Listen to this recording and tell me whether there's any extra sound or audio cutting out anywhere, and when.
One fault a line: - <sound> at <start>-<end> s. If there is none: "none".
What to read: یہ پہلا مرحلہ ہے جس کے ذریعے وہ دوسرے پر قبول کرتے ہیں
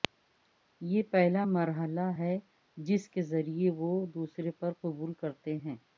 none